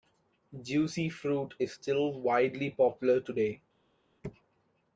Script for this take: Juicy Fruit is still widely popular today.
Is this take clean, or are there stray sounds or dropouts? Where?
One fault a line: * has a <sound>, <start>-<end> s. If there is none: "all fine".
all fine